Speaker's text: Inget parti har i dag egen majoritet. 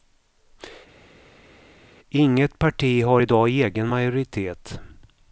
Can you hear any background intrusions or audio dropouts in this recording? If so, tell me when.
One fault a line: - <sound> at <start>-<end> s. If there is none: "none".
none